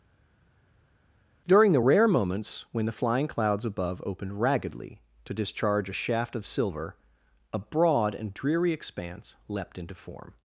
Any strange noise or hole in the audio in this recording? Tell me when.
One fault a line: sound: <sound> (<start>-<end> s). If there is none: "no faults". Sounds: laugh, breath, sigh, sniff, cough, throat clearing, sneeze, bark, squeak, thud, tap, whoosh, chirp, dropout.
no faults